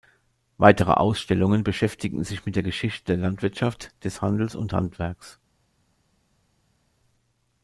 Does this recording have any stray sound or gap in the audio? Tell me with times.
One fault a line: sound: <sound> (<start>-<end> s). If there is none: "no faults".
no faults